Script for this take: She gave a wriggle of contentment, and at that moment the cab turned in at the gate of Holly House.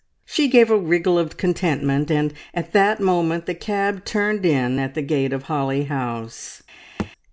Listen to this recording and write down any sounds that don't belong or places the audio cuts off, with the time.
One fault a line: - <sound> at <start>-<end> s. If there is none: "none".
- thud at 7.0-7.1 s